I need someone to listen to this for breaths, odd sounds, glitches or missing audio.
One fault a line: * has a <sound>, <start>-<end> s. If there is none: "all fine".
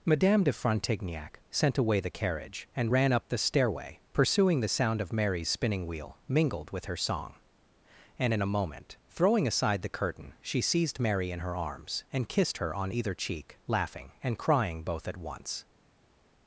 all fine